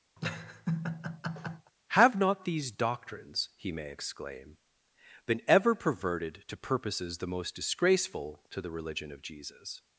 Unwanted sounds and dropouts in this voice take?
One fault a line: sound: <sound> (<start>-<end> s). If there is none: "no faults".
sound: laugh (0.2-1.7 s)